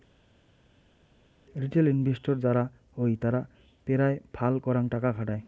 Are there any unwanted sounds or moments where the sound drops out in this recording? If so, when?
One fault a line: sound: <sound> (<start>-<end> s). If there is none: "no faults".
no faults